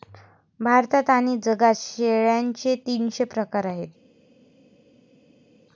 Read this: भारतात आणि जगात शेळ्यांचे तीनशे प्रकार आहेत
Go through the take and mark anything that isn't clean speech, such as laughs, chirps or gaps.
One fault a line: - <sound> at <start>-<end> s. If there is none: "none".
none